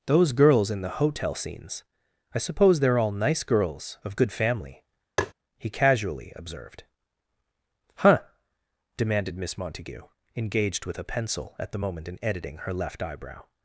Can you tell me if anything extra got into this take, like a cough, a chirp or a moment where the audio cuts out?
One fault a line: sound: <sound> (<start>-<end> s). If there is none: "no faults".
sound: tap (5.2-5.3 s)